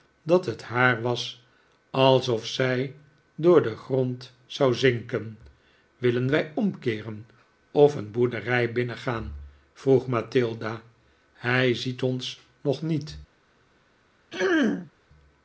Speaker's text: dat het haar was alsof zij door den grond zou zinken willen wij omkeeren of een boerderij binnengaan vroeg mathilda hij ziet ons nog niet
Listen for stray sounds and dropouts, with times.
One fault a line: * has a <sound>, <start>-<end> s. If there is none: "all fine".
* has a throat clearing, 14.3-14.9 s